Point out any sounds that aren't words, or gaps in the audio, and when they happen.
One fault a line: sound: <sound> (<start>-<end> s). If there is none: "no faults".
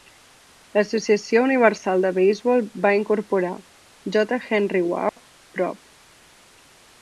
sound: dropout (5.1-5.2 s)